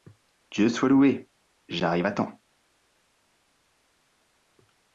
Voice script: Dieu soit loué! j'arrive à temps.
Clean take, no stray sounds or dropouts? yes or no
yes